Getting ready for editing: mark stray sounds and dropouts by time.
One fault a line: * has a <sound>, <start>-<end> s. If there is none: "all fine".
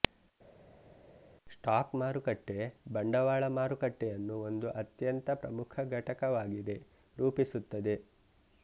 all fine